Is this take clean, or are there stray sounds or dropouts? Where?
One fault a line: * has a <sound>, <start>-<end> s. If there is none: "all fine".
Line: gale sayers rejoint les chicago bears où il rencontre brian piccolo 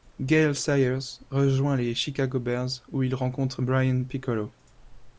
all fine